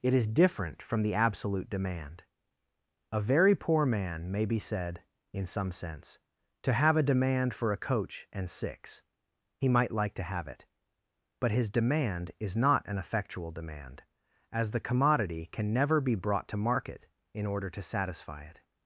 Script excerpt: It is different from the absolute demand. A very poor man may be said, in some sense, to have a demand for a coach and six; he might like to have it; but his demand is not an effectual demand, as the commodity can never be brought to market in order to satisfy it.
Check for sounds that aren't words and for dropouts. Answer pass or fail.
pass